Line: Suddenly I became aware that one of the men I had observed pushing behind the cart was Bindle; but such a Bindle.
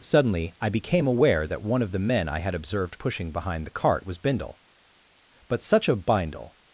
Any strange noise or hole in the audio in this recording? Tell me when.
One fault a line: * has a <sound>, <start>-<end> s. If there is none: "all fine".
all fine